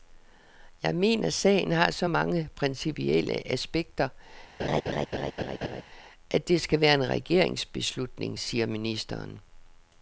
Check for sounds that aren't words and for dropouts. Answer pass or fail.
fail